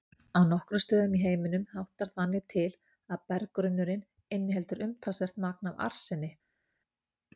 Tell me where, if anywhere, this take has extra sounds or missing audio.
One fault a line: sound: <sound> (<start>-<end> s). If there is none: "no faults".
no faults